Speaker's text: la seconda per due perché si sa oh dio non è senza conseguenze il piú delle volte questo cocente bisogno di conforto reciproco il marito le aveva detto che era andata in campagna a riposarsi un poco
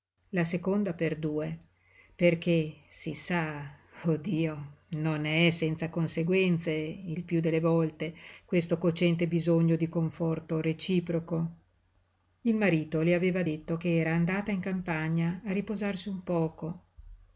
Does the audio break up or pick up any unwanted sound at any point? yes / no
no